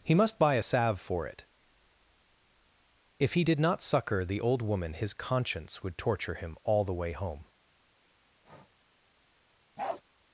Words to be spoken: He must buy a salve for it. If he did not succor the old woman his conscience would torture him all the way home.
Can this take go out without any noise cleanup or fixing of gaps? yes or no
no